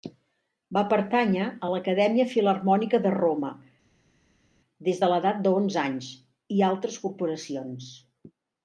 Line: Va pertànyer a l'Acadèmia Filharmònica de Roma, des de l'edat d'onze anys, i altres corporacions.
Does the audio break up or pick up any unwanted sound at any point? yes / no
no